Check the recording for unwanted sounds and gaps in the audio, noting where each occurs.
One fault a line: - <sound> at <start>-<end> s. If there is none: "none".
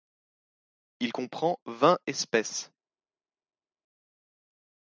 none